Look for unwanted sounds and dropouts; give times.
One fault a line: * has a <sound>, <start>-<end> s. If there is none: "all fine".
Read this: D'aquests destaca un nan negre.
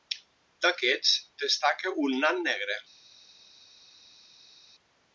all fine